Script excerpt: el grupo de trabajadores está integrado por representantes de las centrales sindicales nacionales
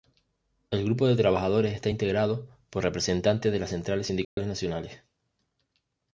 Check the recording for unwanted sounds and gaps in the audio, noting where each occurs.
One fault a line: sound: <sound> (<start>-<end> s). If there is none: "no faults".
sound: dropout (4.2-4.4 s)